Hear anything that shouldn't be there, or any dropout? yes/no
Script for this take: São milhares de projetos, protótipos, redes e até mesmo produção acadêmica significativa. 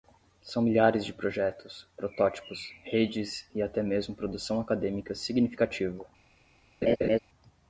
yes